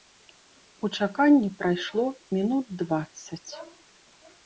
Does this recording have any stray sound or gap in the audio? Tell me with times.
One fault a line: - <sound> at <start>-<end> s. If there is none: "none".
none